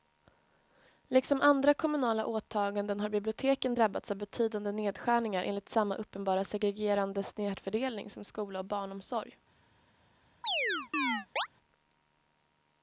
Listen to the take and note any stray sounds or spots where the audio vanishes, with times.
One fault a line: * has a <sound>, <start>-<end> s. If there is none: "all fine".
* has a chirp, 10.4-11.5 s